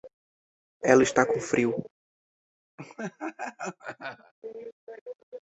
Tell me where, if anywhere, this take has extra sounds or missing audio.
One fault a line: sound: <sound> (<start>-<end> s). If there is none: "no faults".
sound: laugh (2.8-4.3 s)